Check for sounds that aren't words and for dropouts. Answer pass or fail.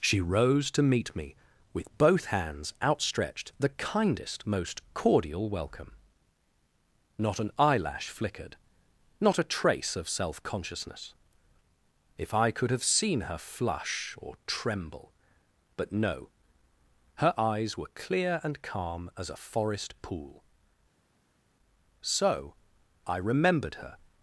pass